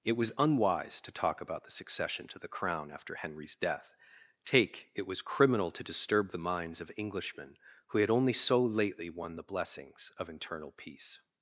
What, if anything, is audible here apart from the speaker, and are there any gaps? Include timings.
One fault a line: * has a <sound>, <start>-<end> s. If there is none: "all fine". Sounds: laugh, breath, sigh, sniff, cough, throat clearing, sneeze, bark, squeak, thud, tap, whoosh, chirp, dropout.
all fine